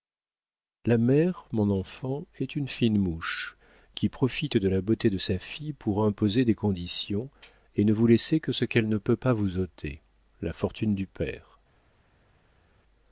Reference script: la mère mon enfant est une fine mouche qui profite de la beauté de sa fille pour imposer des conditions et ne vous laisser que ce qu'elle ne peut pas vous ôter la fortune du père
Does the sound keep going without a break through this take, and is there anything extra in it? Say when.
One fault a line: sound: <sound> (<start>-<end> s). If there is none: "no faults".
no faults